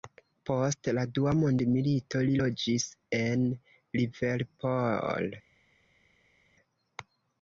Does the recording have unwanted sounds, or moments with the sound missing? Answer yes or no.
no